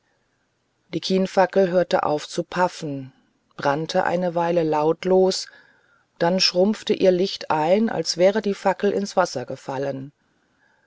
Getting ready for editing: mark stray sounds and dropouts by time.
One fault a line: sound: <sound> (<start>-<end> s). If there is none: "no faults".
no faults